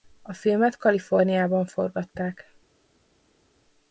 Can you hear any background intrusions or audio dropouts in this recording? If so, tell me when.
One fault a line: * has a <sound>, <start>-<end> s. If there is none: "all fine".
all fine